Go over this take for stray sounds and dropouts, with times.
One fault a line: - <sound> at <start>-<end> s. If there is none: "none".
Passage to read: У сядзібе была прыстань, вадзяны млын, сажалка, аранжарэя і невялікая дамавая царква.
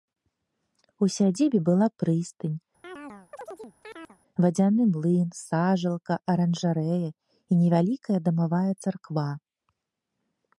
- chirp at 2.8-4.2 s